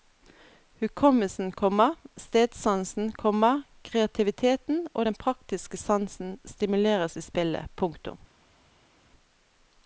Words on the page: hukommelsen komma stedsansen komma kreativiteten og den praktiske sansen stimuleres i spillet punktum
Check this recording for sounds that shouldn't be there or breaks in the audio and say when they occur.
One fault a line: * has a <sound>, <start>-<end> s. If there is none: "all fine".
all fine